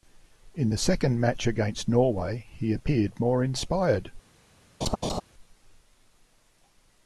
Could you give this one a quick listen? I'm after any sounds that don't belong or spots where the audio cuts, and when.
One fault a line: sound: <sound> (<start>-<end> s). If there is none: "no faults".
sound: laugh (4.8-5.2 s)